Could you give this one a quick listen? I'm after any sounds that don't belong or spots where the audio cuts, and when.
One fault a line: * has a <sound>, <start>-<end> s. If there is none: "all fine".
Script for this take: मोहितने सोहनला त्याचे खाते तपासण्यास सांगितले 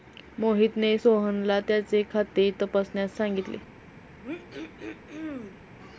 * has a throat clearing, 4.2-5.6 s